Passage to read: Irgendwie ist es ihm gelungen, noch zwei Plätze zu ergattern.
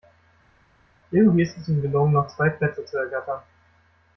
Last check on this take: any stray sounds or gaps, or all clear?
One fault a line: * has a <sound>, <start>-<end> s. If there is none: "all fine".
all fine